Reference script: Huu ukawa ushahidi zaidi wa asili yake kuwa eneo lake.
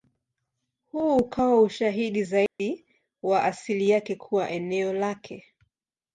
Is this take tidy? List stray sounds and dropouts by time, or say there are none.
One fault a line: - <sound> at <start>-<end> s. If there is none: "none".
- dropout at 2.5-2.6 s